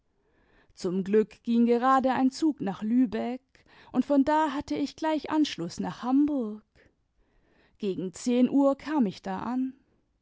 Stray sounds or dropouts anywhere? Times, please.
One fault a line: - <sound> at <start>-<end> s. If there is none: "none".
none